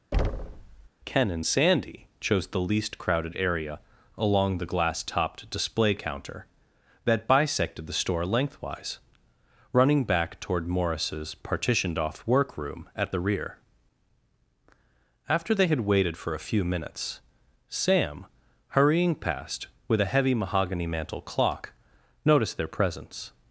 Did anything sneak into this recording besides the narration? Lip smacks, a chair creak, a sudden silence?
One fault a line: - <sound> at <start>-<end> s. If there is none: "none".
- thud at 0.1-0.9 s